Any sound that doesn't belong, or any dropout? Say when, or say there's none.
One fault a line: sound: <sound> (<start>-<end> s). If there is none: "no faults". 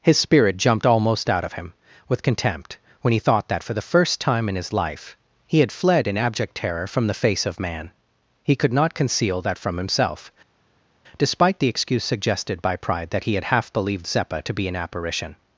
no faults